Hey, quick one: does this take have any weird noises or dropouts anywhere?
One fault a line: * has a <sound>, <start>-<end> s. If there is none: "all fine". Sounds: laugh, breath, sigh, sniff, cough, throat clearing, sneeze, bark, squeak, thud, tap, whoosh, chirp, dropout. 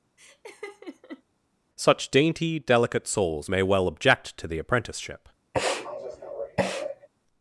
* has a laugh, 0.2-1.2 s
* has a sniff, 5.5-7.1 s